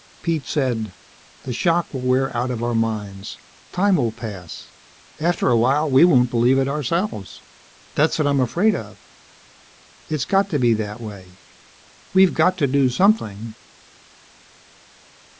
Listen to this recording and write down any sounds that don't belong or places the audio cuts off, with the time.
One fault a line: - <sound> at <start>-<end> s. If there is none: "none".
none